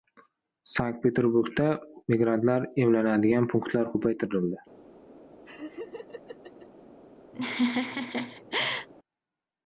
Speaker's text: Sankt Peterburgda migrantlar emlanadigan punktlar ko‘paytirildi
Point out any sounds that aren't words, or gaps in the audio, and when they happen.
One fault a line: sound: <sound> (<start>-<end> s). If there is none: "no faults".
sound: laugh (5.4-6.7 s)
sound: laugh (7.3-8.9 s)